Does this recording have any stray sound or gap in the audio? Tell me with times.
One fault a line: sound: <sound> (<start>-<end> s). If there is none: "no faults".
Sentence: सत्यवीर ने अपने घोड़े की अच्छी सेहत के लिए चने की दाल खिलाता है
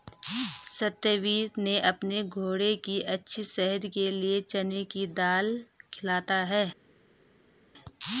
no faults